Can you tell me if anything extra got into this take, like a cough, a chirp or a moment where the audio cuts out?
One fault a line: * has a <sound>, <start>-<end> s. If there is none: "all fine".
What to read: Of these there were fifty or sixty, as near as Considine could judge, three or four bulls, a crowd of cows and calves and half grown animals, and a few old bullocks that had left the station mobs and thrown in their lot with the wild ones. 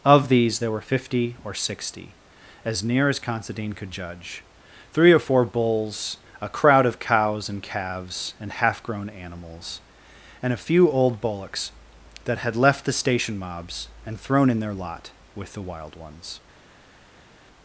all fine